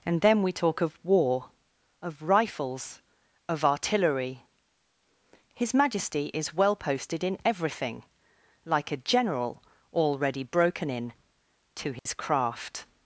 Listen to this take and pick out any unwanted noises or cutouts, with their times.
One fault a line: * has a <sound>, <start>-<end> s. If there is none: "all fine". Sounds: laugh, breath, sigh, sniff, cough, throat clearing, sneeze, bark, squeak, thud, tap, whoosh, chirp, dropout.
* has a dropout, 12.0-12.1 s